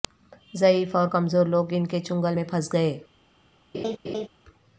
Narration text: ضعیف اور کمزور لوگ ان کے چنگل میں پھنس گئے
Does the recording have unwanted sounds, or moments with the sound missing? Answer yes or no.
yes